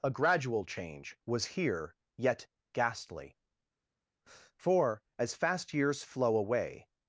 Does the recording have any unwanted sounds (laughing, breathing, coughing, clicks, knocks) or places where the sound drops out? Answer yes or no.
no